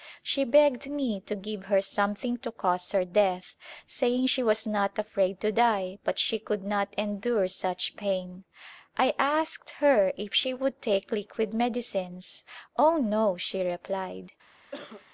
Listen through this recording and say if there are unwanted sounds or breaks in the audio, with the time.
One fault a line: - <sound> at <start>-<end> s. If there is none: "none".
- cough at 14.7-15.0 s